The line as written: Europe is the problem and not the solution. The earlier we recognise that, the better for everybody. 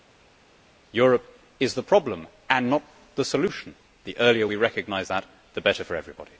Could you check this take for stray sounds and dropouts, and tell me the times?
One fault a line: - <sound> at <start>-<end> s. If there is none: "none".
none